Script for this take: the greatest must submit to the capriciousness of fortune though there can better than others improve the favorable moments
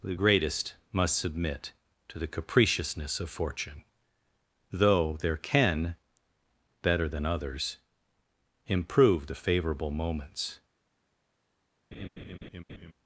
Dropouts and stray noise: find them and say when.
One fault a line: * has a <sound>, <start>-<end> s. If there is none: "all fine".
* has a laugh, 11.9-12.9 s